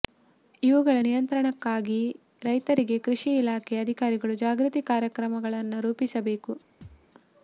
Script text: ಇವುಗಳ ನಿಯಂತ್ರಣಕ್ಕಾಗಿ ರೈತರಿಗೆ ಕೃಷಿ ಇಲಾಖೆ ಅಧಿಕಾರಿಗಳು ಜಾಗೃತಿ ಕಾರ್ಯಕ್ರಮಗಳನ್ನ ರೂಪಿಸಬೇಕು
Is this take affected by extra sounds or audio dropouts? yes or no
yes